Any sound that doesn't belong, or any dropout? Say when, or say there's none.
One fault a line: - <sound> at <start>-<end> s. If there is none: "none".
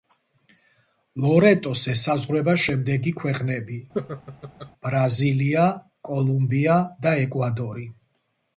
- laugh at 3.9-4.7 s